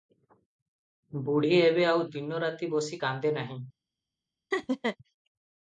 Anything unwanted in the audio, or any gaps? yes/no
yes